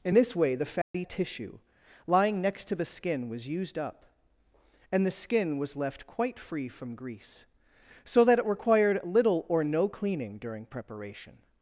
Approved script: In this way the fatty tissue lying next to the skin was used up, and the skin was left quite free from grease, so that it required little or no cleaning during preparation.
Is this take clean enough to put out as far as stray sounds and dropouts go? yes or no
no